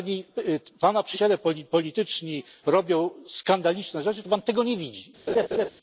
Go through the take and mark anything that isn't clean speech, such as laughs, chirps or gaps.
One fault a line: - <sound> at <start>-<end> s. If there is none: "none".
- laugh at 5.3-5.7 s